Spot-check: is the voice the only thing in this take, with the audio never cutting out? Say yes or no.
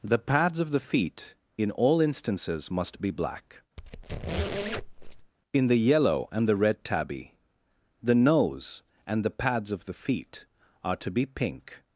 no